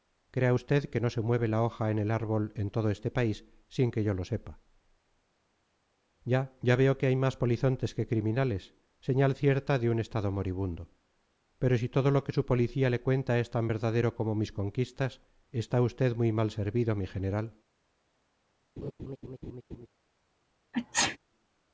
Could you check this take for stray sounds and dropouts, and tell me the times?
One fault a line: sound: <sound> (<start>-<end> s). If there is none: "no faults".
sound: laugh (18.8-19.9 s)
sound: sneeze (20.7-21.2 s)